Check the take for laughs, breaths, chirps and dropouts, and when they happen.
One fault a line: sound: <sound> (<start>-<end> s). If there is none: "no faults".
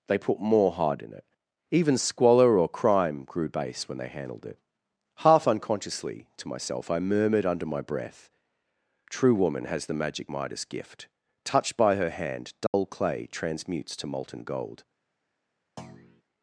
sound: dropout (12.7-12.7 s)
sound: thud (15.8-16.2 s)